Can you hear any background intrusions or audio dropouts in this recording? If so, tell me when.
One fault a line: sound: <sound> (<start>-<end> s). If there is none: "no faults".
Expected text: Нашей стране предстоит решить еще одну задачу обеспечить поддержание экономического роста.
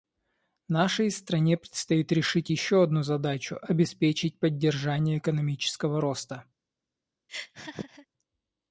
sound: laugh (7.3-8.1 s)